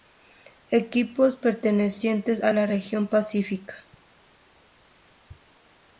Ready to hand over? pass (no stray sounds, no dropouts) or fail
pass